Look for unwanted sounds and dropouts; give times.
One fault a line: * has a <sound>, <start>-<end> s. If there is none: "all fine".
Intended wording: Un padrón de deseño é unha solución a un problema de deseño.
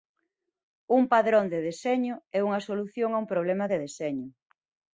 all fine